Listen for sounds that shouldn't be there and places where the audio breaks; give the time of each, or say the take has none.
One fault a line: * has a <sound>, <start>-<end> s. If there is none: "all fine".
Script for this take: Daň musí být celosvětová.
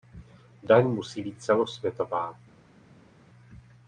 all fine